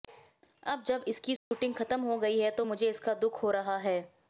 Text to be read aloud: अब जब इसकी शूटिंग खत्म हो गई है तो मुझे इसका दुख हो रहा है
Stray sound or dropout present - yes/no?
yes